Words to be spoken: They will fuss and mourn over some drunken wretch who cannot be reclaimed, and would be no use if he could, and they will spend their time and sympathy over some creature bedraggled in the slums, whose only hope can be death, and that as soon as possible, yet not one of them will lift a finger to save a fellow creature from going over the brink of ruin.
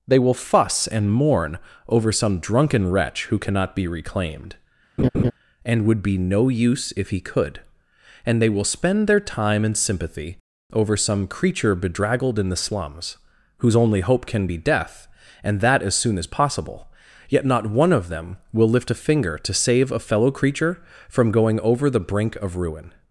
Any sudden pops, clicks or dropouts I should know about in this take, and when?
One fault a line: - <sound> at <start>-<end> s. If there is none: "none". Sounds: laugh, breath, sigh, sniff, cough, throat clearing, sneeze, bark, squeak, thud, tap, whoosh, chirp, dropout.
- laugh at 5.0-5.3 s